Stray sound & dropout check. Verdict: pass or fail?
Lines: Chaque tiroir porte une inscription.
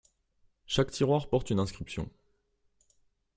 pass